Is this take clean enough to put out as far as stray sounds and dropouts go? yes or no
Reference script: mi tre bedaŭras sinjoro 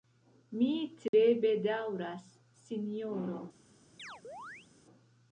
no